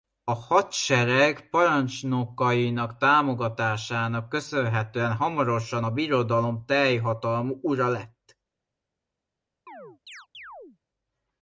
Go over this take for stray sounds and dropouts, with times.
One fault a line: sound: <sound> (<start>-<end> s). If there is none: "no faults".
sound: chirp (9.7-10.8 s)